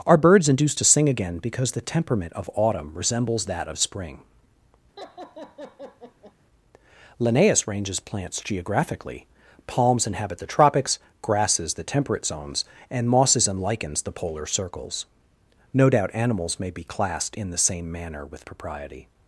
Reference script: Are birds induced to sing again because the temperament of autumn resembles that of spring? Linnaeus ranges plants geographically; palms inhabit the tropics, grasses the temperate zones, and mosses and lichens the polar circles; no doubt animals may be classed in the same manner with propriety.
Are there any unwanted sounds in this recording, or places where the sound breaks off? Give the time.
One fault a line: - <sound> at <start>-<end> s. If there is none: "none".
- laugh at 5.0-6.3 s